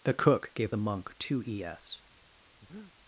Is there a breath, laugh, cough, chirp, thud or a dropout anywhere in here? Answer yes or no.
yes